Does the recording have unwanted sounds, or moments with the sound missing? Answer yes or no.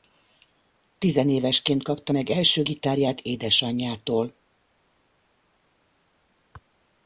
no